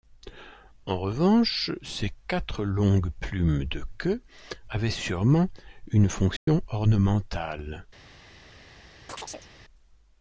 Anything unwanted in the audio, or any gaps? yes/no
yes